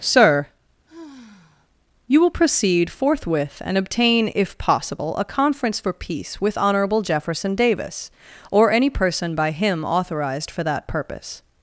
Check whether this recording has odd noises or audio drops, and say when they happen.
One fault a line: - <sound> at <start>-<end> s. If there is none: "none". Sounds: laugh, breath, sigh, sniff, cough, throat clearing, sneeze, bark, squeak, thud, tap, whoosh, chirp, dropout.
- sigh at 0.9-1.7 s